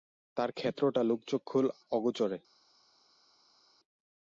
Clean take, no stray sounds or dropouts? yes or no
yes